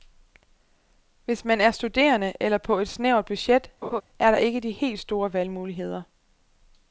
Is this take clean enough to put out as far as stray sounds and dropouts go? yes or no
no